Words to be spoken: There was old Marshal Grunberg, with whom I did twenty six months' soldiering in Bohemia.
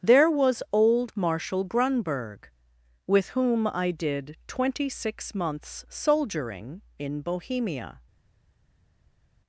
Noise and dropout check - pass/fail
pass